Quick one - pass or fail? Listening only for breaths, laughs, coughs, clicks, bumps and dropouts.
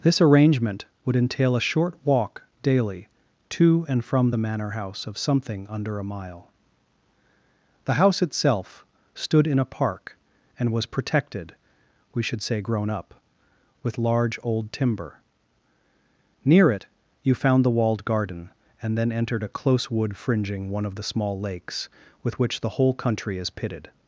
pass